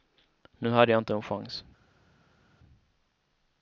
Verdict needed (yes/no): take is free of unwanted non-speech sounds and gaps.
yes